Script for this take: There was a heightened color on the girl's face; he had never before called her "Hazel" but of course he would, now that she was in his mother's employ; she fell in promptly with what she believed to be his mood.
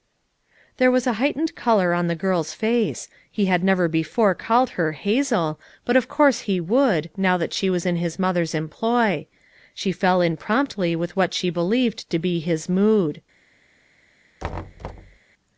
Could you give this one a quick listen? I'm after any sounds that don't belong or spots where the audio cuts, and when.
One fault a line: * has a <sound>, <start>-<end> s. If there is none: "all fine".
* has a thud, 14.4-15.2 s